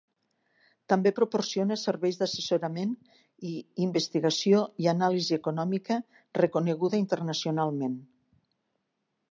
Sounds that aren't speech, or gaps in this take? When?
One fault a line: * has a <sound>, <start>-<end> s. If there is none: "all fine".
all fine